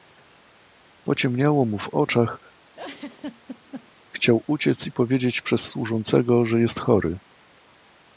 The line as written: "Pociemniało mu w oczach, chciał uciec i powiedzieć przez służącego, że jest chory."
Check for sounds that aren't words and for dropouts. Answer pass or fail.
fail